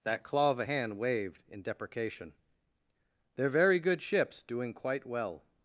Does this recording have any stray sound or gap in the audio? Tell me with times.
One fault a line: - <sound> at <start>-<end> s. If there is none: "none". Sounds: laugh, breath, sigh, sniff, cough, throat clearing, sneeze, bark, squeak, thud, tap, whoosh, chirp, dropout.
none